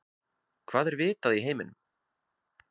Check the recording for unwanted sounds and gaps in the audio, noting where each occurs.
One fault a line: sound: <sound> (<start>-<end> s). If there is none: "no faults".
no faults